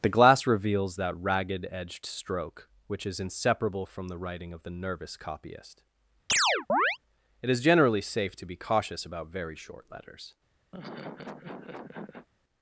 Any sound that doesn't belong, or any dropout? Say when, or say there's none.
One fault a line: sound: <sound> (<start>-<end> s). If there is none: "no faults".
sound: chirp (6.3-7.0 s)
sound: laugh (10.7-12.3 s)